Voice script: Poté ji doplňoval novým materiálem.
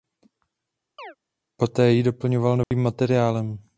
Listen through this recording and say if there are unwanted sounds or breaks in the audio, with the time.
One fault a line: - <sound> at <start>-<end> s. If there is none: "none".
- chirp at 1.0-1.2 s
- dropout at 2.6-2.7 s